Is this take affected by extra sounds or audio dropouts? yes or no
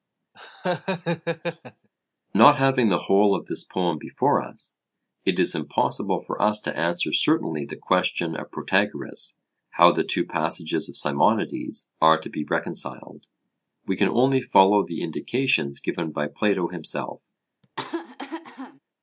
yes